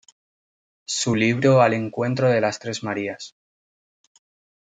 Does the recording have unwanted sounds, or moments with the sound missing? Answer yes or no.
no